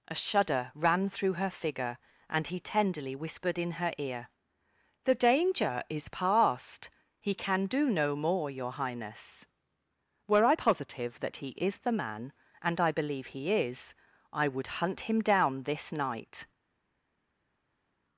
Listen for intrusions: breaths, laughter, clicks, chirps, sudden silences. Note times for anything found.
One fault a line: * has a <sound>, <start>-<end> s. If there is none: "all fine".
all fine